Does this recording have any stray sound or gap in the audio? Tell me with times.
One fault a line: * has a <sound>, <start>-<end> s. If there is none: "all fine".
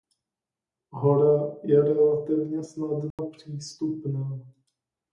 * has a dropout, 3.1-3.2 s